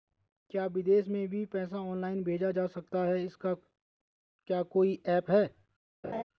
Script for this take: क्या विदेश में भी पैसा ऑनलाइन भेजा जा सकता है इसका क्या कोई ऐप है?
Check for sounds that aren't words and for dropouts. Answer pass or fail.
fail